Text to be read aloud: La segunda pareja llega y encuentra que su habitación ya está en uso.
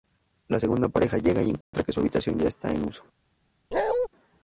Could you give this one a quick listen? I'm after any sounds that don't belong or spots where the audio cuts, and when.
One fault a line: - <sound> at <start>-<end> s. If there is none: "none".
- dropout at 1.6-1.7 s
- bark at 3.7-4.1 s